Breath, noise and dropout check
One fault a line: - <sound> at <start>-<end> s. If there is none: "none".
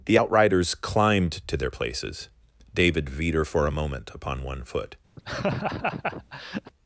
- laugh at 5.2-6.7 s